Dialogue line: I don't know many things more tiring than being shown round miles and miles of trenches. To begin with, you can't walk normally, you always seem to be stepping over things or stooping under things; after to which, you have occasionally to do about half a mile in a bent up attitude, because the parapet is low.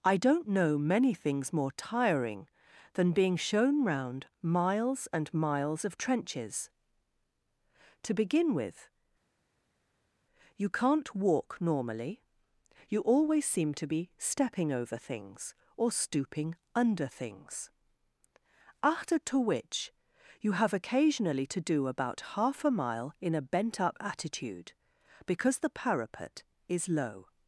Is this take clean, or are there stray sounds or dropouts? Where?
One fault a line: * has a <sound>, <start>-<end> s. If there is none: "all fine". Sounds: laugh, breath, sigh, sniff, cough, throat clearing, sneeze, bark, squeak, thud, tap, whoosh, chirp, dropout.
all fine